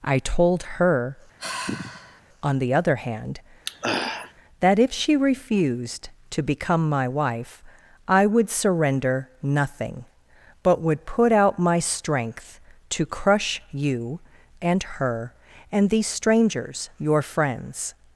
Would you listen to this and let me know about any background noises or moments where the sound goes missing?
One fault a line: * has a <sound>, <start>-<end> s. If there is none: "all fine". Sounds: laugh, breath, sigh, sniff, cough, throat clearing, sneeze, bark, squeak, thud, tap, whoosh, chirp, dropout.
* has a sigh, 1.4-2.2 s
* has a throat clearing, 3.6-4.3 s